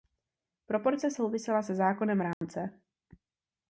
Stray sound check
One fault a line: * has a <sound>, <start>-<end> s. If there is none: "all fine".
* has a dropout, 2.3-2.4 s